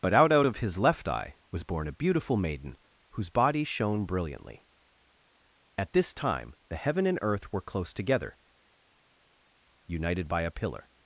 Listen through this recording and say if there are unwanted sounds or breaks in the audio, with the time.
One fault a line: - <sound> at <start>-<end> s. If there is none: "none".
none